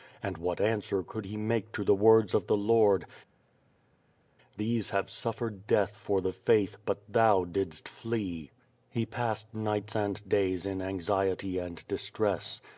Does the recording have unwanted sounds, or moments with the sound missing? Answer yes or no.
no